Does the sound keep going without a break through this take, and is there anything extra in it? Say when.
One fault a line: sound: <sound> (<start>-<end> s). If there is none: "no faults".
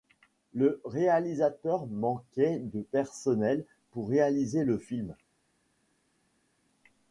no faults